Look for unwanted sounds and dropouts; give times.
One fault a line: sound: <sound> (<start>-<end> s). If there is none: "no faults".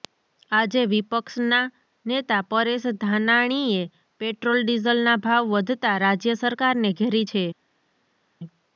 no faults